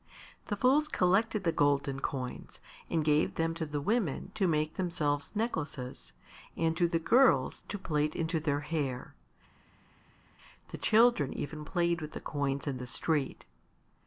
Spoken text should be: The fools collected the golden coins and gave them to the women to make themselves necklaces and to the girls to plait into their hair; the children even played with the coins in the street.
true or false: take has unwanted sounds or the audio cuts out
false